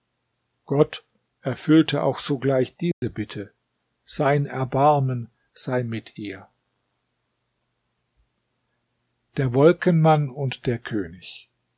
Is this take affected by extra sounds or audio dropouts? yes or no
yes